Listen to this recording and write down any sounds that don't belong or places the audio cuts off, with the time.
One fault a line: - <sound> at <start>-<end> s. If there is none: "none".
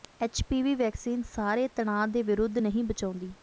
none